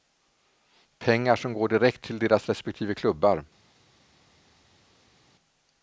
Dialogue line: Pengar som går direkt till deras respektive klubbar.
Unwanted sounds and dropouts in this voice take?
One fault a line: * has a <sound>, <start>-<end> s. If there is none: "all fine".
all fine